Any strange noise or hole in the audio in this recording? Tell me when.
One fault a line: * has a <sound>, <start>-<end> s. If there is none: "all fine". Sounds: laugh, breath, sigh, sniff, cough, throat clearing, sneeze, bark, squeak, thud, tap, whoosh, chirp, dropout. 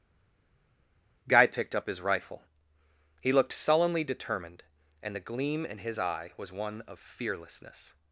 all fine